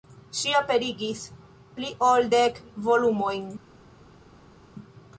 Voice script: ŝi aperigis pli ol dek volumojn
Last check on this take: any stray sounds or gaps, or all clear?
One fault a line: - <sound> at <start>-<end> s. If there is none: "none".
none